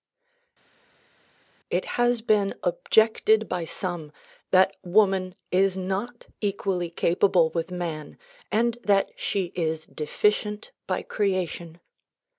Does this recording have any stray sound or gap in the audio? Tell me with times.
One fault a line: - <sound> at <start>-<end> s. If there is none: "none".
none